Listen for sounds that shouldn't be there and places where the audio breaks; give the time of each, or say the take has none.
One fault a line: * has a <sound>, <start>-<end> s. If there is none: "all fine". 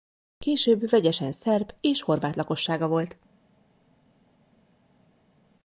all fine